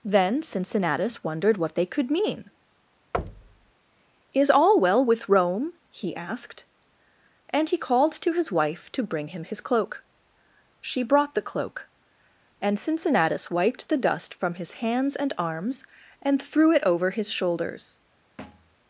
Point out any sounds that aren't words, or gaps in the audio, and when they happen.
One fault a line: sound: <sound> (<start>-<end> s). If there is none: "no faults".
sound: thud (3.1-3.7 s)
sound: thud (18.4-18.8 s)